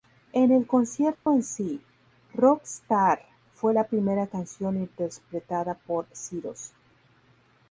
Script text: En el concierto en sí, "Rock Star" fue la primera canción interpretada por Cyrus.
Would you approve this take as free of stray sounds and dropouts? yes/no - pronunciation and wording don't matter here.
no